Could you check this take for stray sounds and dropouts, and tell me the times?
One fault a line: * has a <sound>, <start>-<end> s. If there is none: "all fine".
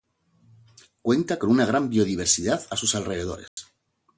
* has a dropout, 3.5-3.6 s